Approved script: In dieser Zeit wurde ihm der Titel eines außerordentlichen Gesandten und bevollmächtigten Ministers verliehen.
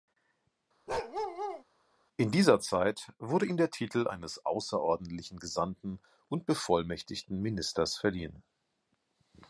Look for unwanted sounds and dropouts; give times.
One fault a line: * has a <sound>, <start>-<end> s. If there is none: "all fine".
* has a bark, 0.9-1.6 s